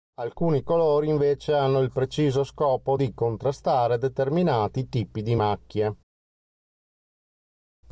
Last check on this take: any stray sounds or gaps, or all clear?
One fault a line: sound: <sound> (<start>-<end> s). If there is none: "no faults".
no faults